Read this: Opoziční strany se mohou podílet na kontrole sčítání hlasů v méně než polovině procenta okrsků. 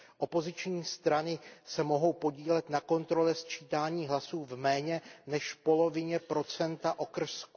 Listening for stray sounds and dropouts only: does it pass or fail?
pass